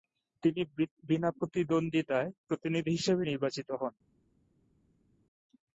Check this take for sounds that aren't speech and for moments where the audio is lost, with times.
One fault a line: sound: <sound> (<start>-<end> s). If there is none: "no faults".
no faults